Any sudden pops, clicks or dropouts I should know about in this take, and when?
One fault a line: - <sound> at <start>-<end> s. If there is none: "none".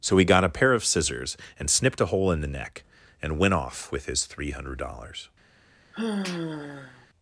- sigh at 5.9-7.1 s